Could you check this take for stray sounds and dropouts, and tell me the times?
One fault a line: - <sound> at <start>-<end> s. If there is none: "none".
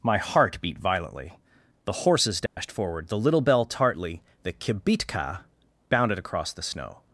- dropout at 2.5-2.6 s